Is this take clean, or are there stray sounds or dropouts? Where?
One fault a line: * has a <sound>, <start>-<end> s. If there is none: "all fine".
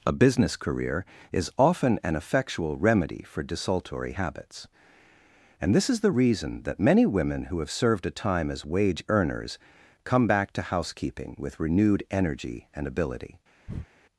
* has a breath, 13.7-13.9 s